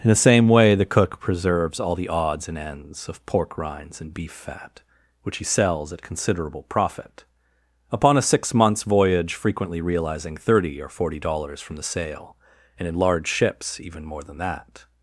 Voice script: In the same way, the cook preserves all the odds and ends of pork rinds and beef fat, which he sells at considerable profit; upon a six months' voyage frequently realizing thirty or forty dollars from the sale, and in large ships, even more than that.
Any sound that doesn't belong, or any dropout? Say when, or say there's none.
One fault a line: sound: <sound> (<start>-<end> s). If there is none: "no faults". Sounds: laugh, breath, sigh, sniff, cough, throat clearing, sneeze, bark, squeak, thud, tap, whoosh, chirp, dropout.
no faults